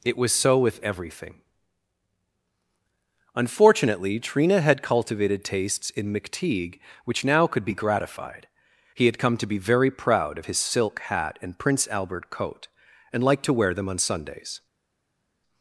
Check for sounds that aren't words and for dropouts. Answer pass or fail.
pass